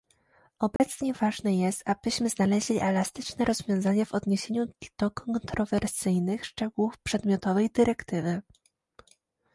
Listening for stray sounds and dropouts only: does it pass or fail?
fail